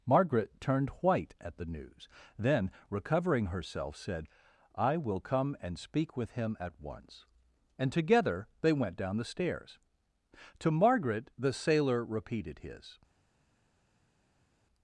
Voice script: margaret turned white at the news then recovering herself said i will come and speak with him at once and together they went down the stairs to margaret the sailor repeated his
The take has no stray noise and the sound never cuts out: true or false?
true